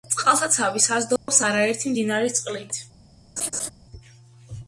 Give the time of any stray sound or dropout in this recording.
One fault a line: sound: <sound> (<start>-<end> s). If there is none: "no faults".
sound: dropout (1.2-1.3 s)
sound: laugh (3.4-3.7 s)